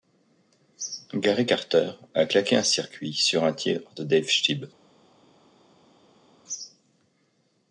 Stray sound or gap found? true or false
false